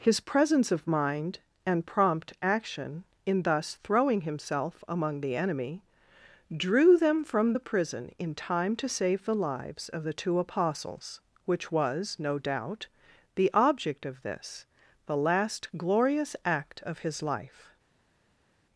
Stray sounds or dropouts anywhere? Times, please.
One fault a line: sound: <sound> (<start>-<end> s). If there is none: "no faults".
no faults